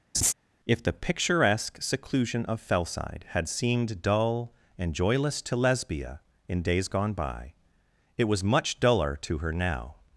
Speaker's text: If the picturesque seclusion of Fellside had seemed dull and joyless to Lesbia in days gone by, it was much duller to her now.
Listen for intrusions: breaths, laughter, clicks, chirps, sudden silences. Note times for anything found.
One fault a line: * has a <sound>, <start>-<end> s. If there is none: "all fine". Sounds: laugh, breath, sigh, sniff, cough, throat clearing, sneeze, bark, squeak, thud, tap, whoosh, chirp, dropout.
* has a laugh, 0.1-0.3 s